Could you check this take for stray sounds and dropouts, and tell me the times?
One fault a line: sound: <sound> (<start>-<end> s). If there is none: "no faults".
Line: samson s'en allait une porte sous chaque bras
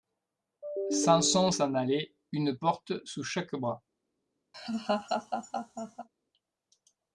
sound: laugh (4.5-6.1 s)